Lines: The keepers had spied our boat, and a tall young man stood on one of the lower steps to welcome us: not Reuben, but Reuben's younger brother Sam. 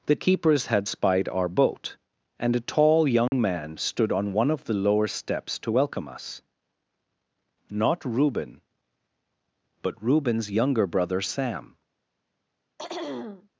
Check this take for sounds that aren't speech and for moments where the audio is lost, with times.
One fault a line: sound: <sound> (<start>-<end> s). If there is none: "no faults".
sound: dropout (3.3-3.3 s)
sound: throat clearing (12.8-13.5 s)